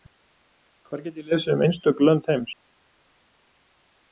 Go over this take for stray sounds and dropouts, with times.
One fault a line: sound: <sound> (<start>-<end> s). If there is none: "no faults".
no faults